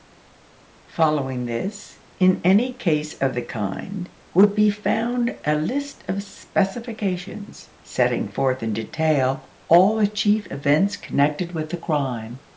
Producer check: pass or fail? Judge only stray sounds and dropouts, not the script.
pass